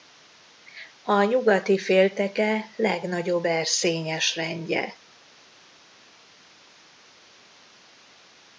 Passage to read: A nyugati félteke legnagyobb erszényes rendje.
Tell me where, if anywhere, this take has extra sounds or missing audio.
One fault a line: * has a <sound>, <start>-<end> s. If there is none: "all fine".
all fine